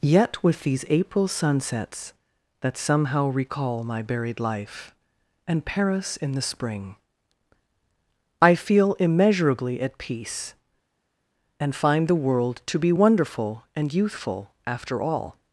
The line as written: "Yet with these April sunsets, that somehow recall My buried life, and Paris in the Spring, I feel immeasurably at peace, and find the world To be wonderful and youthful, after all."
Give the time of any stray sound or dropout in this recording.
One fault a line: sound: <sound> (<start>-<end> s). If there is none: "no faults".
no faults